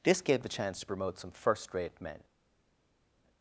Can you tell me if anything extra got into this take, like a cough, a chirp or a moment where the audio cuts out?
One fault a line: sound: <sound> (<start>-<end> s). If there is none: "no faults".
no faults